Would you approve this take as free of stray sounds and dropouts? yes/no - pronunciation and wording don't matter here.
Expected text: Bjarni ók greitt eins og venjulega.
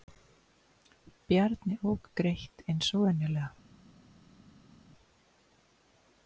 yes